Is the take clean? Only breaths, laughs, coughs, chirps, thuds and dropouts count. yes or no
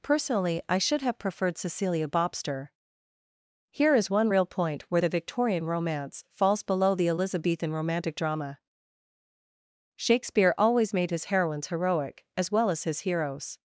yes